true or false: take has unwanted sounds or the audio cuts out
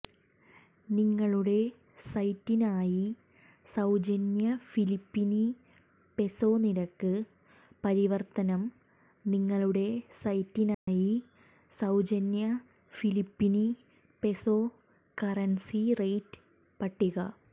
true